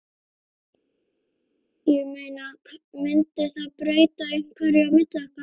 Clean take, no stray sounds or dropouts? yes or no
yes